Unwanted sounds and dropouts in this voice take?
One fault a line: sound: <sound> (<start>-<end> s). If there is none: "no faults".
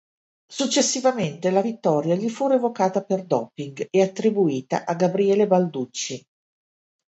no faults